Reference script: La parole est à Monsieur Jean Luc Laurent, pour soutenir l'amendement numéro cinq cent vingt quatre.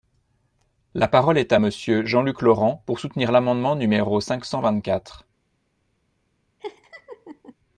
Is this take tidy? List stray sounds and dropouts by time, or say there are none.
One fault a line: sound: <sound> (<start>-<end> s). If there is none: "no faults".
sound: laugh (6.6-7.5 s)